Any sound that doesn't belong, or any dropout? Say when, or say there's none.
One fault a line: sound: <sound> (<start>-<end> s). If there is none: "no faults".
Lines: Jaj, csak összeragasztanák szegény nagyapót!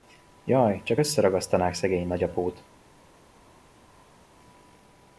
no faults